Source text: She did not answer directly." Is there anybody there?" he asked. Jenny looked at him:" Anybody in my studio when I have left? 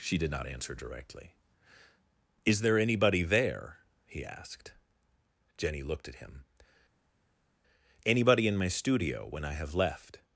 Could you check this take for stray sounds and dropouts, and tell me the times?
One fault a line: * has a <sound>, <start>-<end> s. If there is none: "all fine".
all fine